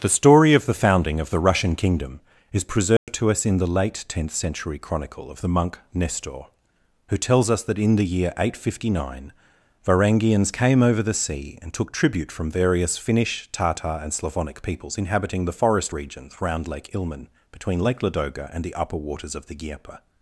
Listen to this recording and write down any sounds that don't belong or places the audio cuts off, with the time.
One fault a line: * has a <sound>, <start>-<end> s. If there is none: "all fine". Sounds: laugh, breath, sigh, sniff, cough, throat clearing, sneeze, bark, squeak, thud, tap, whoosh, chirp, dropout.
* has a dropout, 3.0-3.1 s